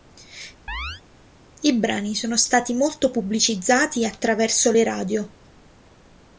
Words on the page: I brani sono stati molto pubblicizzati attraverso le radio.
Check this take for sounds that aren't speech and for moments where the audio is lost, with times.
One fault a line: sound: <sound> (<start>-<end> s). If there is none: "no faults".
sound: chirp (0.7-1.0 s)